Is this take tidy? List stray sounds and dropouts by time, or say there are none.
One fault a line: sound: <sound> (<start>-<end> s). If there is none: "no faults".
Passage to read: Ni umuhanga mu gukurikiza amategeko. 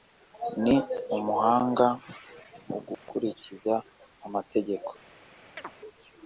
sound: dropout (2.9-3.1 s)
sound: chirp (5.6-5.7 s)